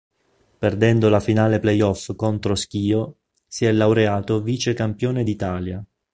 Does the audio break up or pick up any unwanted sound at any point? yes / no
no